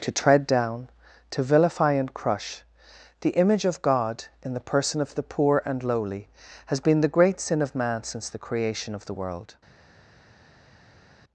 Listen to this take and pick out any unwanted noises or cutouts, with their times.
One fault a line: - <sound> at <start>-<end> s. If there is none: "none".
none